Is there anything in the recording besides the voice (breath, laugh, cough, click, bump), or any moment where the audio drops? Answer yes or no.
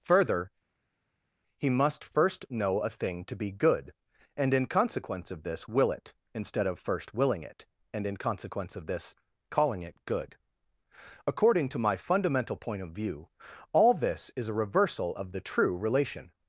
no